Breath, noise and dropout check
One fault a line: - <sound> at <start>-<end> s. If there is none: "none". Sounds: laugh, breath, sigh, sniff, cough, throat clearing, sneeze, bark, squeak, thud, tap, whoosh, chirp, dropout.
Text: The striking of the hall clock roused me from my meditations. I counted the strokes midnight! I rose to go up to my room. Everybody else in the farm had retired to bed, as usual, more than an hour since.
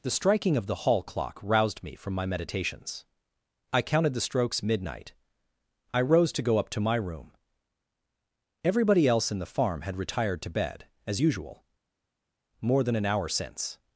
none